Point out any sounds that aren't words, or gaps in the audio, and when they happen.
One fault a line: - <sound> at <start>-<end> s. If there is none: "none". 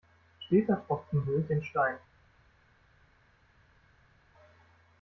none